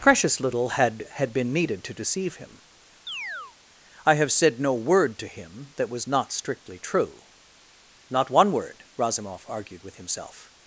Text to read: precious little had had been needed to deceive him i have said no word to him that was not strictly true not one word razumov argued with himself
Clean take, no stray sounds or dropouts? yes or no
no